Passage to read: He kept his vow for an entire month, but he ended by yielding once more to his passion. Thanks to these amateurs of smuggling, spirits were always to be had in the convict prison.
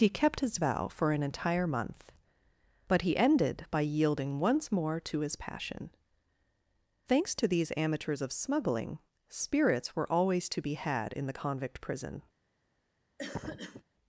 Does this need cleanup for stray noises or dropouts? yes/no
yes